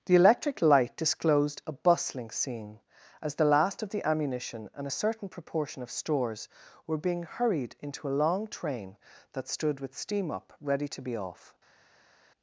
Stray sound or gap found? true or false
false